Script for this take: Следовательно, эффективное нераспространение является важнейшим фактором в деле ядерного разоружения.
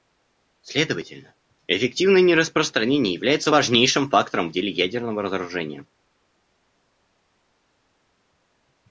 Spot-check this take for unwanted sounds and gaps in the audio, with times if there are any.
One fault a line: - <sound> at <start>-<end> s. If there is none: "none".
none